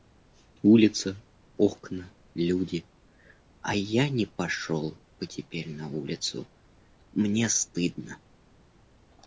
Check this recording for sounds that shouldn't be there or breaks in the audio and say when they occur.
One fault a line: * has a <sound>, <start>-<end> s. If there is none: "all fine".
all fine